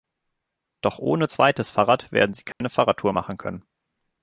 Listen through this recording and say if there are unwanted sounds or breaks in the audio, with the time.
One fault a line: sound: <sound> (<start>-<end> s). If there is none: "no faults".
sound: dropout (2.5-2.6 s)